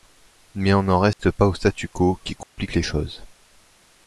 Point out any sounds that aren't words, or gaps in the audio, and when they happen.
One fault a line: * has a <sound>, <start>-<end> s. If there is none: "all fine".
* has a dropout, 1.1-1.2 s
* has a dropout, 2.4-2.6 s